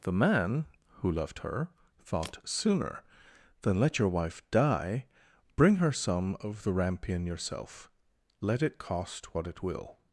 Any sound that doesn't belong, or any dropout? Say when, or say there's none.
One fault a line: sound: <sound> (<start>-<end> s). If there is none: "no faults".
no faults